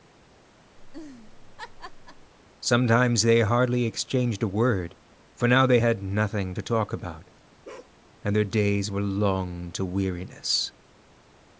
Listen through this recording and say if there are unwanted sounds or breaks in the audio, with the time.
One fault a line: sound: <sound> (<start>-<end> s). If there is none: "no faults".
sound: laugh (0.8-2.3 s)
sound: bark (7.6-7.9 s)